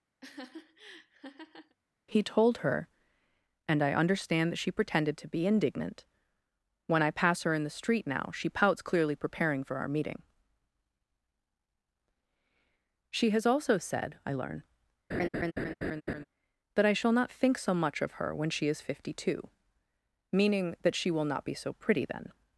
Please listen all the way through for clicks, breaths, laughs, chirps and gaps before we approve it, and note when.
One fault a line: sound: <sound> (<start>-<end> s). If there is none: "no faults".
sound: laugh (0.2-1.8 s)
sound: laugh (15.1-16.2 s)